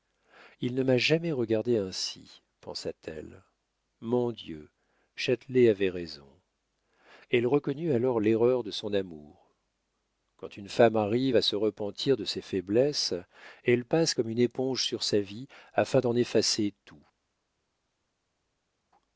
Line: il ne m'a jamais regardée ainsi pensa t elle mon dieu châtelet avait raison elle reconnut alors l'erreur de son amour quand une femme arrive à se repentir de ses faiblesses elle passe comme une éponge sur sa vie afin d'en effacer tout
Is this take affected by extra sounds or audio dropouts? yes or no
no